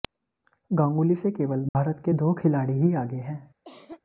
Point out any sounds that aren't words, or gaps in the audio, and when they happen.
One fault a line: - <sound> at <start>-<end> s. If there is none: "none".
- dropout at 1.7-1.8 s
- cough at 3.6-4.0 s